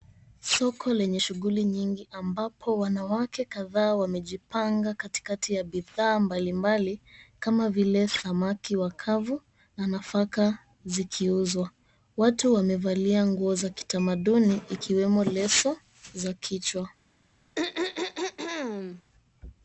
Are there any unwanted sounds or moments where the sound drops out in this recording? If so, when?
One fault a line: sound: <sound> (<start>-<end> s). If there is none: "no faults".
sound: throat clearing (17.6-19.0 s)